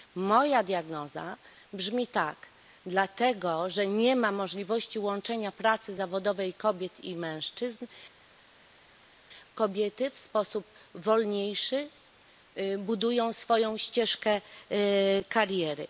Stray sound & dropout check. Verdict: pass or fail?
pass